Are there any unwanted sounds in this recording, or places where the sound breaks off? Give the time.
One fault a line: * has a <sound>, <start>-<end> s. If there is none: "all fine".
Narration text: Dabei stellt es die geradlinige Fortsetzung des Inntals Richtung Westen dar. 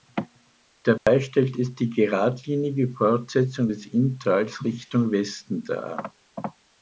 * has a dropout, 1.0-1.1 s